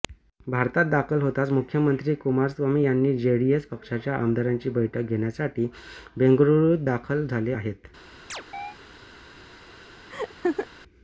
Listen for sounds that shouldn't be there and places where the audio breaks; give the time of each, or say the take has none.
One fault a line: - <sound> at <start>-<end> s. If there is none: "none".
- chirp at 8.3-8.8 s
- laugh at 10.1-10.7 s